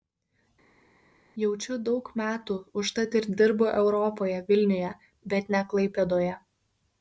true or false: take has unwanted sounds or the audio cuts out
false